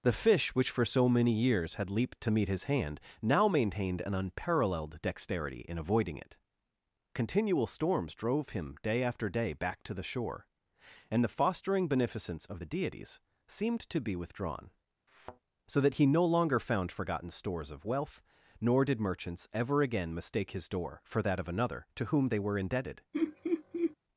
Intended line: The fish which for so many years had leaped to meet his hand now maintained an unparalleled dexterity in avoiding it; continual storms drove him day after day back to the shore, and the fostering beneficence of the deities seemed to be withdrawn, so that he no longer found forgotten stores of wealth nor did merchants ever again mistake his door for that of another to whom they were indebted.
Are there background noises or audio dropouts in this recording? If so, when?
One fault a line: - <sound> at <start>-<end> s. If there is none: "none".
- thud at 15.1-15.4 s
- laugh at 23.1-24.0 s